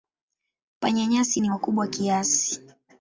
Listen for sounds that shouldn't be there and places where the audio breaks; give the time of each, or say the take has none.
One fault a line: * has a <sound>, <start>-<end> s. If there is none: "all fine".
all fine